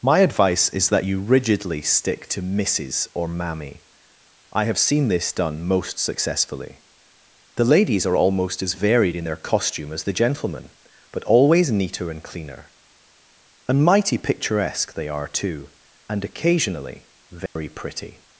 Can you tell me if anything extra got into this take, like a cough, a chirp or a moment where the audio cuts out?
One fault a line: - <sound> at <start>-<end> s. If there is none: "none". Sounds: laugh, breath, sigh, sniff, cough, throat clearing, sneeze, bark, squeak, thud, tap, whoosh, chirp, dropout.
- dropout at 17.5-17.6 s